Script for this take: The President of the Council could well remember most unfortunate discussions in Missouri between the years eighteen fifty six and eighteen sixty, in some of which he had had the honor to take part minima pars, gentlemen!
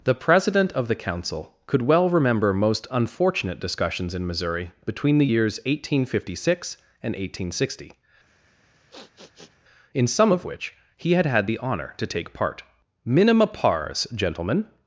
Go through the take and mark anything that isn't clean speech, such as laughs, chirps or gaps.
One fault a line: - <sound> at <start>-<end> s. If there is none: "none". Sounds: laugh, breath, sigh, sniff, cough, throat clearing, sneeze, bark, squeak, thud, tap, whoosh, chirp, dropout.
- sniff at 8.3-9.6 s